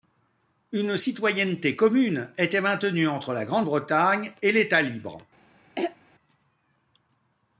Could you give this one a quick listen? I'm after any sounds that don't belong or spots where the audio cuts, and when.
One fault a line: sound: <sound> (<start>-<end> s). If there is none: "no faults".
sound: throat clearing (5.8-6.0 s)